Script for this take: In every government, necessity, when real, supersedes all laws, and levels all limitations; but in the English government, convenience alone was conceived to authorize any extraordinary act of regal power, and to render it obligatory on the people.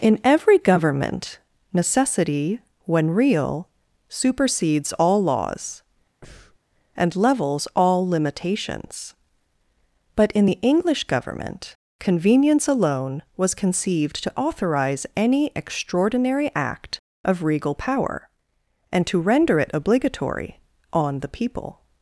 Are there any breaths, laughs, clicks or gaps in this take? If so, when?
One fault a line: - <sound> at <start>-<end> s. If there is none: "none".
- breath at 6.2-6.6 s